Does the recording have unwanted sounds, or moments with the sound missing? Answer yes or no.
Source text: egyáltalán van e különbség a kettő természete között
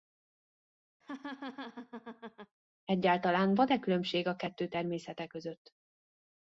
yes